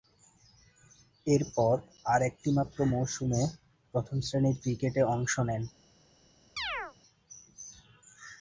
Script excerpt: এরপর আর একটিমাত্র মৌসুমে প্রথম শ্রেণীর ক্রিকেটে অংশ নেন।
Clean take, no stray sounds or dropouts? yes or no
no